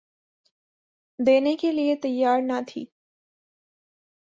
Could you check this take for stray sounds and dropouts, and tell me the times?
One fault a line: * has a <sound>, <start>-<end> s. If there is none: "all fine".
all fine